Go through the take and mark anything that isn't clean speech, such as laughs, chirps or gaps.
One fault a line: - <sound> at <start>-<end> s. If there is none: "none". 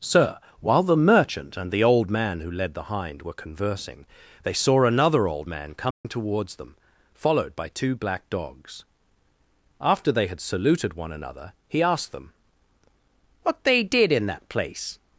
- dropout at 5.9-6.0 s